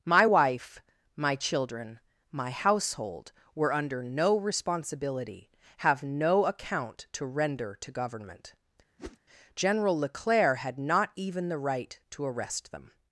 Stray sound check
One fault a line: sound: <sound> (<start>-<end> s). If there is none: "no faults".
sound: whoosh (9.0-9.2 s)